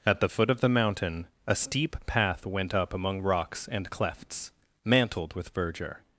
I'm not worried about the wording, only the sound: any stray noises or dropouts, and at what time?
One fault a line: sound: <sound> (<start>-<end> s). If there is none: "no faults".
no faults